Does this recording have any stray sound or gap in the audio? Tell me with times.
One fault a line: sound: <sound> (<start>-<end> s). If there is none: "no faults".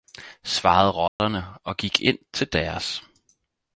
sound: dropout (1.1-1.2 s)